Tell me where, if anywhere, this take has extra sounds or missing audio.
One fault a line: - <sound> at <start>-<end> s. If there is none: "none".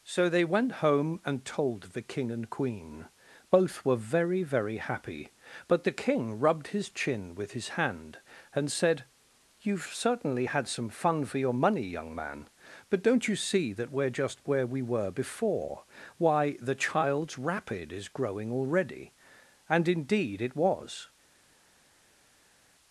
none